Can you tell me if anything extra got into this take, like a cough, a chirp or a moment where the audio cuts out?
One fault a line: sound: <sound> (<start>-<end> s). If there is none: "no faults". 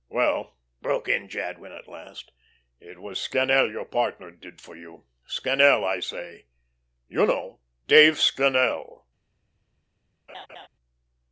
sound: laugh (10.3-10.7 s)